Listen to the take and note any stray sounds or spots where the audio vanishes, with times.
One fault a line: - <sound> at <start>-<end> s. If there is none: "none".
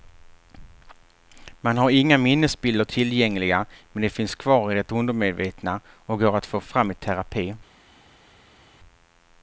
none